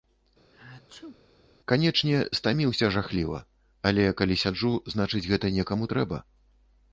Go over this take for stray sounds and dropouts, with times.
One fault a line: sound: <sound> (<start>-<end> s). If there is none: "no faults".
sound: sneeze (0.5-1.2 s)